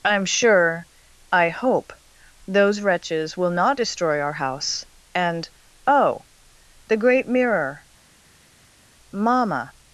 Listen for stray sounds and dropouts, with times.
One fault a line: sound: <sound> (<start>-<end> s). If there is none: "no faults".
no faults